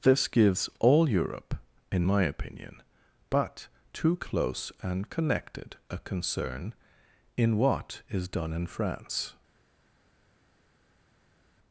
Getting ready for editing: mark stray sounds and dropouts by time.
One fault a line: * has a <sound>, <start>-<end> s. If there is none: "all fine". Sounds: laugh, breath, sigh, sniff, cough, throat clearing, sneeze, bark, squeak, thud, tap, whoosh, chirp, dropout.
all fine